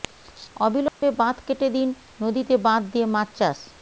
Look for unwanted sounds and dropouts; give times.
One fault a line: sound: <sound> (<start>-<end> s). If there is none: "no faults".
sound: dropout (0.9-1.0 s)